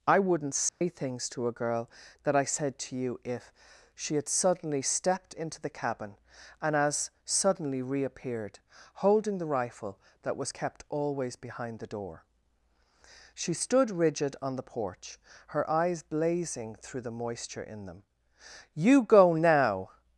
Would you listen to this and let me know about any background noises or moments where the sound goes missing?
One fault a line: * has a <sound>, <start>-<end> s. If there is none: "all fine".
* has a dropout, 0.7-0.8 s